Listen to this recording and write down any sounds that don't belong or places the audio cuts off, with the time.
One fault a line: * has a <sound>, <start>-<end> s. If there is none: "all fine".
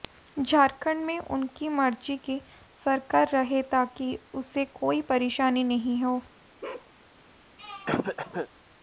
* has a bark, 6.6-6.9 s
* has a throat clearing, 7.6-8.5 s